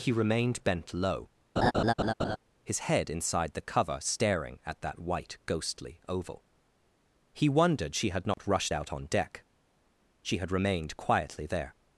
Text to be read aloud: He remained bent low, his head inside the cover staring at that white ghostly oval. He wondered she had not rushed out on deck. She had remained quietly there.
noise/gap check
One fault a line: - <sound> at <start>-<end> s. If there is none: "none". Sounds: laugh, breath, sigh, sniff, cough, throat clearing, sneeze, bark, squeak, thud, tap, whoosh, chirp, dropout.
- laugh at 1.6-2.4 s
- dropout at 8.3-8.4 s